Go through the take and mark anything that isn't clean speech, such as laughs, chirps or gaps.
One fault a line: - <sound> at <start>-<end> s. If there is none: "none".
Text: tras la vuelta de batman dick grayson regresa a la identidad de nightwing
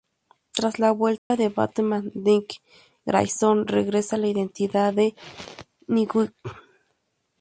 - dropout at 1.2-1.3 s